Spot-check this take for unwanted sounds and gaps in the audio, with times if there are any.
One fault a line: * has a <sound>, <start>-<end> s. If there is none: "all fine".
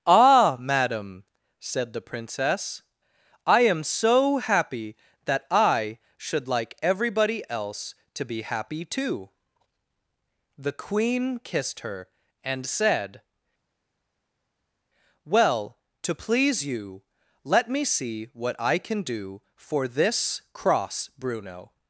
all fine